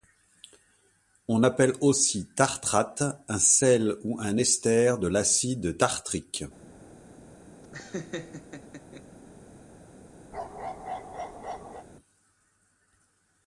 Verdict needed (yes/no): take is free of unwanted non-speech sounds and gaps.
no